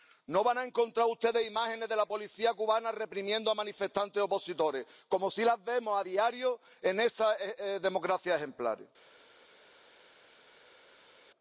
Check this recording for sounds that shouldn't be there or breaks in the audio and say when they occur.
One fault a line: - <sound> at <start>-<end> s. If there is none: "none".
none